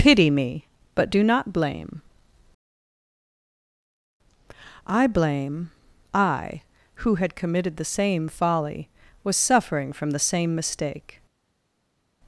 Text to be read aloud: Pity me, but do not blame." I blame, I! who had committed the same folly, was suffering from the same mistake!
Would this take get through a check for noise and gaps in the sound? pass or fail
pass